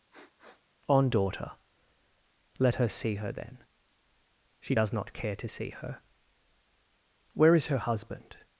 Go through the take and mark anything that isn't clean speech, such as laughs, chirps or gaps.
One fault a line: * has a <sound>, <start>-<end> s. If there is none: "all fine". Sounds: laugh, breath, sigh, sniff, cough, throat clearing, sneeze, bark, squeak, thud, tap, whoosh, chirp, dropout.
* has a sniff, 0.1-0.6 s